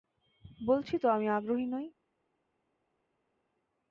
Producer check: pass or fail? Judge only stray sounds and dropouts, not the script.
pass